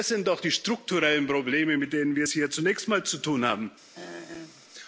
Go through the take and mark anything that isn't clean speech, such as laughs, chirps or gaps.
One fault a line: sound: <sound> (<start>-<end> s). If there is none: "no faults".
sound: throat clearing (3.9-4.6 s)